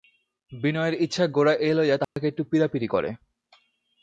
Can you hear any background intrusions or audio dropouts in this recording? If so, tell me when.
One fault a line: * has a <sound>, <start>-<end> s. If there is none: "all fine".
* has a dropout, 2.0-2.2 s